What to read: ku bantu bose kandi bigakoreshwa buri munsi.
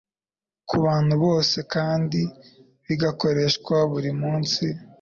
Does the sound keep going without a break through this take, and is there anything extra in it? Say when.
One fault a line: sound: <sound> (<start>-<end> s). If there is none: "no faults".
no faults